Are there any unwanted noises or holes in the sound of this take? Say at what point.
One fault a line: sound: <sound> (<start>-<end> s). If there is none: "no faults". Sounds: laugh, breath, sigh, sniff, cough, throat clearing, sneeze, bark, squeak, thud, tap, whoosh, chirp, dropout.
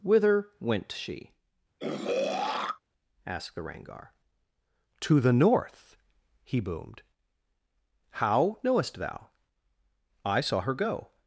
sound: throat clearing (1.8-2.8 s)